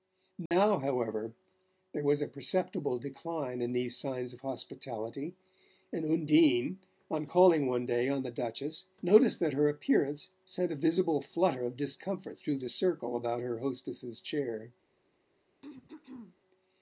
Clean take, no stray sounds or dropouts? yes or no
no